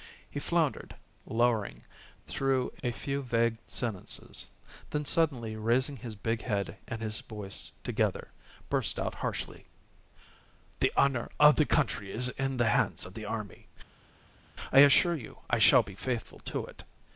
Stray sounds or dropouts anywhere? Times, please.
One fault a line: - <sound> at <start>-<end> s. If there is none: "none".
none